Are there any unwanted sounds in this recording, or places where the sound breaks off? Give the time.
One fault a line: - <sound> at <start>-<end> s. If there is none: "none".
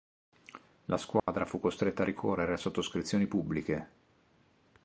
- dropout at 1.2-1.3 s